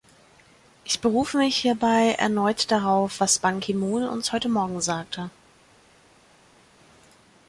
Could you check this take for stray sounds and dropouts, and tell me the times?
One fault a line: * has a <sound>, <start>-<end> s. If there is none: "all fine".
all fine